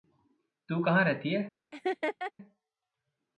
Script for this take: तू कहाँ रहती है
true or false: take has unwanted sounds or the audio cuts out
true